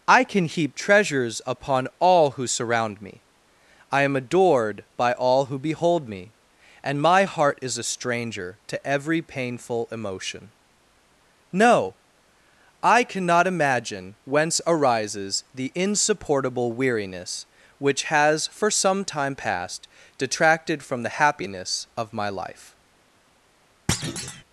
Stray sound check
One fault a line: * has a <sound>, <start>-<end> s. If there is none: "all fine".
* has a thud, 23.9-24.4 s